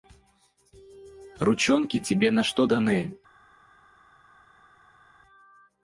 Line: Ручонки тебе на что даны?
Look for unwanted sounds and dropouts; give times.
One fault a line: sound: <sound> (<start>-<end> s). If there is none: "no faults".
no faults